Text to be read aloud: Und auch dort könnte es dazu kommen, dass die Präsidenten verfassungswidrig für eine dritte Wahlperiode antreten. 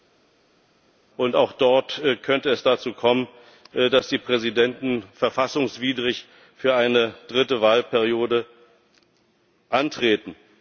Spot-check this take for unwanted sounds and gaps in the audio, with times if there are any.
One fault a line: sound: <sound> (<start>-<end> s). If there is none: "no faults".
no faults